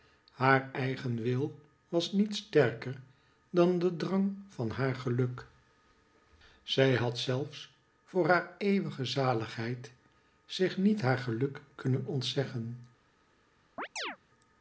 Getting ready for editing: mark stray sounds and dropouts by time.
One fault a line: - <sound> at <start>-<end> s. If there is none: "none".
- chirp at 13.8-14.2 s